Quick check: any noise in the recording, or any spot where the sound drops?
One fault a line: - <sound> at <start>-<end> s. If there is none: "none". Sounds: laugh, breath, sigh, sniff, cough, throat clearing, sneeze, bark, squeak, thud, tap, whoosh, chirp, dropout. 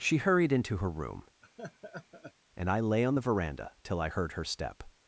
- laugh at 1.4-2.3 s